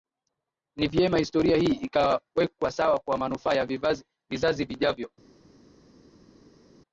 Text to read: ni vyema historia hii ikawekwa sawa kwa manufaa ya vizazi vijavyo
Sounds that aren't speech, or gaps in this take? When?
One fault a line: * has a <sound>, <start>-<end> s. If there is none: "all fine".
all fine